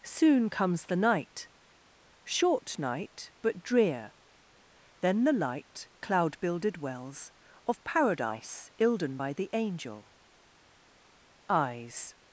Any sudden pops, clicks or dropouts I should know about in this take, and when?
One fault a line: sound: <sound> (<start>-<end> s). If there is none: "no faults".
no faults